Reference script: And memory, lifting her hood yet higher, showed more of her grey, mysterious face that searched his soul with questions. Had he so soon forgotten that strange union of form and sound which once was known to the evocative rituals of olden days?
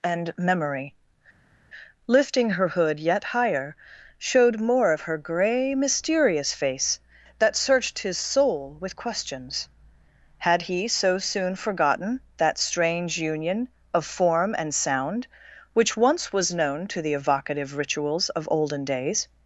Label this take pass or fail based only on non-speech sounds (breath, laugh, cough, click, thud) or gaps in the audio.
pass